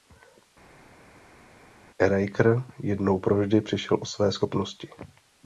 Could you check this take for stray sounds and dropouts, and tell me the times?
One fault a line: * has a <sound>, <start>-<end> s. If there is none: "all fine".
all fine